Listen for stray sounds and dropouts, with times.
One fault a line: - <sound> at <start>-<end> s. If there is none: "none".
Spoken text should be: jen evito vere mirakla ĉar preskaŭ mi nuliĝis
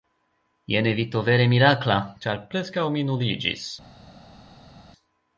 none